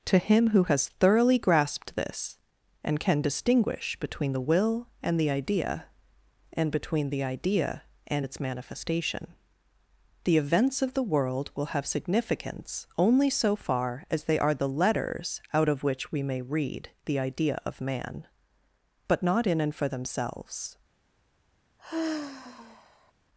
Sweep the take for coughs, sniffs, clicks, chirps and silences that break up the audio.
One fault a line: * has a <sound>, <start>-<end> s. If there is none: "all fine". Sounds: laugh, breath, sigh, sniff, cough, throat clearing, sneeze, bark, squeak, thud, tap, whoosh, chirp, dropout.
* has a sigh, 21.8-23.1 s